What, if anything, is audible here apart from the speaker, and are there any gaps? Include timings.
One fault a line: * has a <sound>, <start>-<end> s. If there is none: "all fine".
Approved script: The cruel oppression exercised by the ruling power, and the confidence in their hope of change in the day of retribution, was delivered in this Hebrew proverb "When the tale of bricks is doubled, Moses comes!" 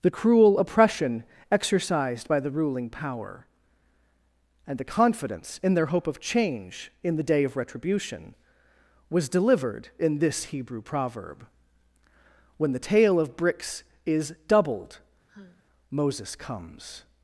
* has a sigh, 15.3-15.6 s